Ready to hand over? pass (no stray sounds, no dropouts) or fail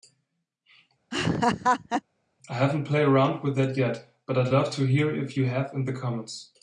fail